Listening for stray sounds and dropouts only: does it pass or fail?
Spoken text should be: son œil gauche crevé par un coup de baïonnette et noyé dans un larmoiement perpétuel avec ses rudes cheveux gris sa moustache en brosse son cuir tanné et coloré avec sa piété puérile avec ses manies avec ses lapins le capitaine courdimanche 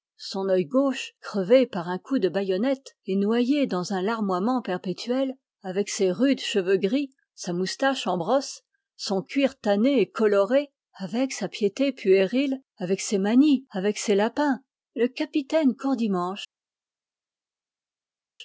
pass